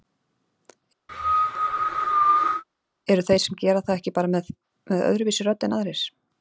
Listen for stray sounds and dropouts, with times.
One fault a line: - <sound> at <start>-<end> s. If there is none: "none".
- cough at 1.1-2.6 s